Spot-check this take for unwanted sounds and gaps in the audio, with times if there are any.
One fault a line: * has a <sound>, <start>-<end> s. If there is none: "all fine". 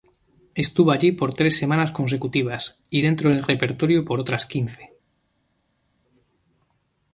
all fine